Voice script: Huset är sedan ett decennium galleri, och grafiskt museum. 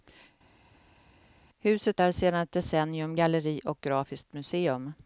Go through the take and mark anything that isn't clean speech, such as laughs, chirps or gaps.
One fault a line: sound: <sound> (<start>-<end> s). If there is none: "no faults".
no faults